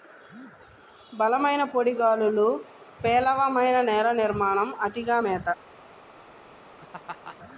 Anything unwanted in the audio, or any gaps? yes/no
yes